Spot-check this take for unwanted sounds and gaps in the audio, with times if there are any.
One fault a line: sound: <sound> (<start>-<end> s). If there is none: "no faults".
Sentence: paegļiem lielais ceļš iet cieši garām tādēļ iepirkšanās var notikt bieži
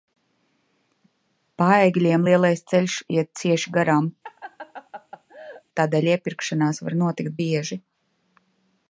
sound: laugh (4.2-5.6 s)